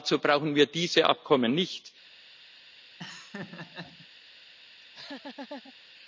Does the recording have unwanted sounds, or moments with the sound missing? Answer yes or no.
yes